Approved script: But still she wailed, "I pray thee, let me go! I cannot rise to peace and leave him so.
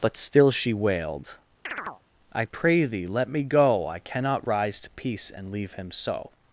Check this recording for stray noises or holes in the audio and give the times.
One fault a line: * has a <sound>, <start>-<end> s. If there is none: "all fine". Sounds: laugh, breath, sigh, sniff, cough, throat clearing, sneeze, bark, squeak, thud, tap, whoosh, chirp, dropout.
* has a chirp, 1.7-2.0 s